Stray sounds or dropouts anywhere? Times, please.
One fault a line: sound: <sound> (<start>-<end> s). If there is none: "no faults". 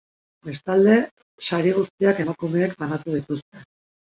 no faults